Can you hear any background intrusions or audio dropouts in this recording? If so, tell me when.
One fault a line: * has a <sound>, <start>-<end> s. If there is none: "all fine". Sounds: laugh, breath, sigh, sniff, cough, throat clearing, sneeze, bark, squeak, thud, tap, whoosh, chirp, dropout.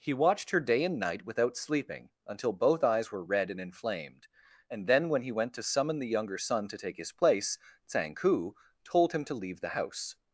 all fine